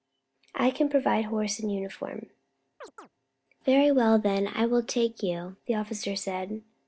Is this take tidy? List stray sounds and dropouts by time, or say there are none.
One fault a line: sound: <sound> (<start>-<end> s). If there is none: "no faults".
sound: chirp (2.8-3.1 s)